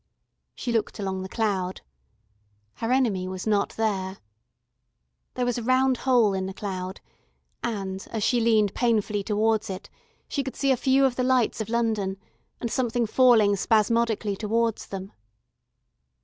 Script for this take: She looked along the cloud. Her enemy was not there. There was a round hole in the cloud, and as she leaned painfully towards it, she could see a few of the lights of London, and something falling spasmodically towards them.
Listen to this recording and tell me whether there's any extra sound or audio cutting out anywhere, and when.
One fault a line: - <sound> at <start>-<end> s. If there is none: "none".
none